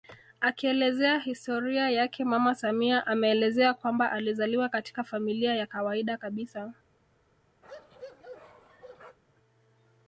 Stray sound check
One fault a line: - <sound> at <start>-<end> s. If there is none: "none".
- bark at 7.6-9.2 s